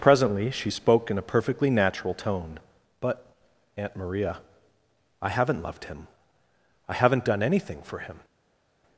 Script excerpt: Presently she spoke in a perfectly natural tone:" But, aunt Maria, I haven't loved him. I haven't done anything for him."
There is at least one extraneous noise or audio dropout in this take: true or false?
false